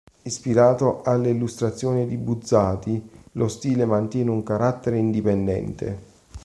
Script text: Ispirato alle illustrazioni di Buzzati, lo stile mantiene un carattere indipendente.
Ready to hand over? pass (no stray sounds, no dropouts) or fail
pass